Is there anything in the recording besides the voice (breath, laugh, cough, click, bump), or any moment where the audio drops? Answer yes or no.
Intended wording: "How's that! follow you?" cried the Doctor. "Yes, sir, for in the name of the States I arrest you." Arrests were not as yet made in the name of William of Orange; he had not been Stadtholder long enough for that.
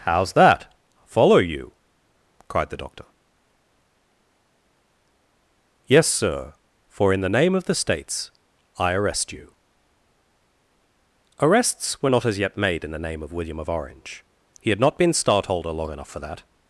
no